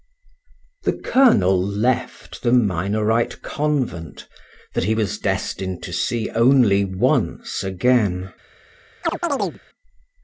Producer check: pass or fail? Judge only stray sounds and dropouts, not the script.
fail